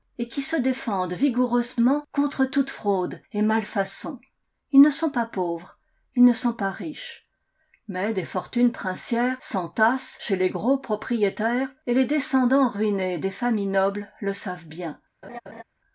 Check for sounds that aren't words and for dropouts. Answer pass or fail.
fail